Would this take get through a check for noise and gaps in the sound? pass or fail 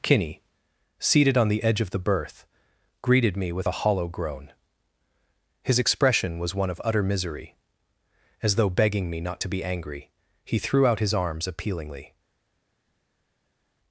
pass